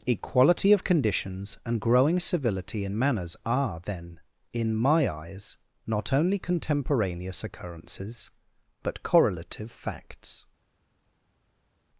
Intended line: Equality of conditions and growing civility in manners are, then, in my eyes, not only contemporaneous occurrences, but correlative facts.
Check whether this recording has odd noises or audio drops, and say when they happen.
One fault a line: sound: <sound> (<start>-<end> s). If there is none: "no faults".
no faults